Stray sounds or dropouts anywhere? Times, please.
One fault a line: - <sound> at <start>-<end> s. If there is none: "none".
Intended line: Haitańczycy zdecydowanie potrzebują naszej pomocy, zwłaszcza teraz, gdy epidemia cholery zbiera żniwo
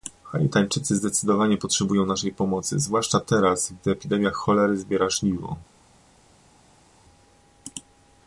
none